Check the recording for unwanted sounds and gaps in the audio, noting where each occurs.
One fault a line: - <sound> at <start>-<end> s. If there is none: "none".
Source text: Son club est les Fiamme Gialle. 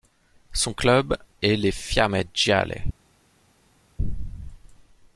none